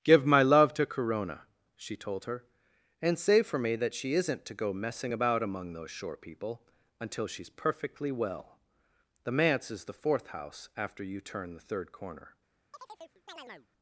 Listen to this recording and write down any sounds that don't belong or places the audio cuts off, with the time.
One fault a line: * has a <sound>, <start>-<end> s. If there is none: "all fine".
* has a chirp, 12.7-13.7 s